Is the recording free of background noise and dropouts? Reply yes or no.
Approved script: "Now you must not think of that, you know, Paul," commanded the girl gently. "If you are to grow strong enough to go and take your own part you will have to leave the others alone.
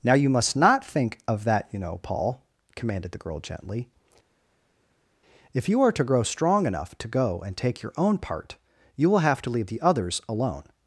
yes